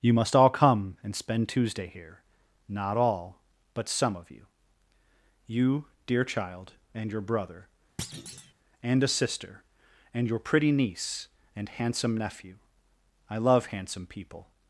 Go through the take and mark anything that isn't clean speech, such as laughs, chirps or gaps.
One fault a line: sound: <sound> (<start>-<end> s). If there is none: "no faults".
sound: thud (8.0-8.5 s)